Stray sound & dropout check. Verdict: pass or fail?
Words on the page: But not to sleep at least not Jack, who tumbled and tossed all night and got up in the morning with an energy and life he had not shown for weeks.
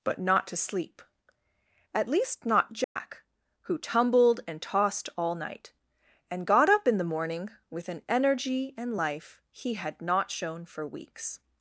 fail